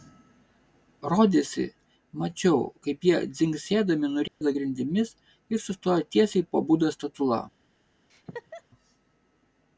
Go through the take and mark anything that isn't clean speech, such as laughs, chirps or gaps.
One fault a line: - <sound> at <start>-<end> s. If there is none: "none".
- dropout at 4.3-4.4 s
- laugh at 8.1-8.6 s